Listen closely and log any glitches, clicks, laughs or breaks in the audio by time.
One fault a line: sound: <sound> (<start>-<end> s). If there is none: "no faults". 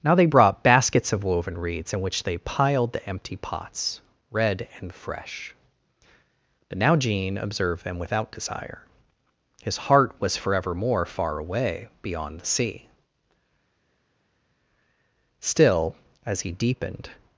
no faults